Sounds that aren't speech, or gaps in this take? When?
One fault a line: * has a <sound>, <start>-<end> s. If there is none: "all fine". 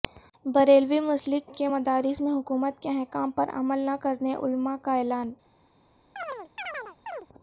* has a chirp, 6.2-7.3 s